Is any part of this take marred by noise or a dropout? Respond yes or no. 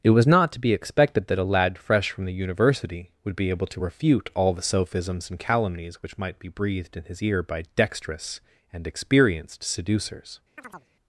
yes